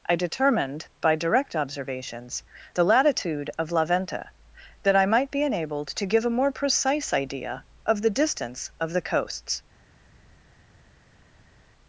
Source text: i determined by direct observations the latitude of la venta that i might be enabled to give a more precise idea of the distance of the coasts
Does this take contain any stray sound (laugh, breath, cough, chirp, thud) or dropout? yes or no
no